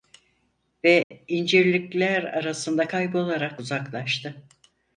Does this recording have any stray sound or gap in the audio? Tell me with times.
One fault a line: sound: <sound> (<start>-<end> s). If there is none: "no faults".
sound: dropout (1.0-1.1 s)